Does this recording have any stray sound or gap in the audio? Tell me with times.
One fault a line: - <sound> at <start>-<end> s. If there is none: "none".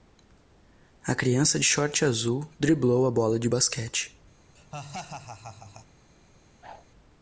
- laugh at 4.6-5.9 s
- whoosh at 6.6-6.8 s